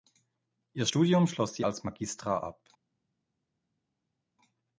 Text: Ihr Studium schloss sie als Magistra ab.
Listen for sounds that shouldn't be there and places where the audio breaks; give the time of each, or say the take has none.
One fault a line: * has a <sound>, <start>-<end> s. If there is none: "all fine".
all fine